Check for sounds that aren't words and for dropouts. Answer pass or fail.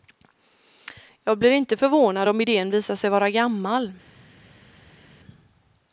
pass